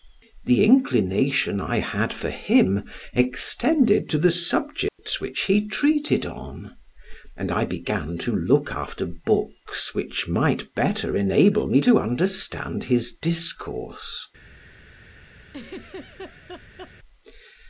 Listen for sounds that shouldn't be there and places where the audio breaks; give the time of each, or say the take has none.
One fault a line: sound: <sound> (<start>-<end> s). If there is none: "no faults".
sound: dropout (4.9-5.0 s)
sound: laugh (15.5-16.9 s)